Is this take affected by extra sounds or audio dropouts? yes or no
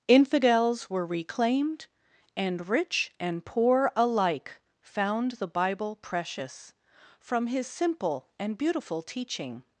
no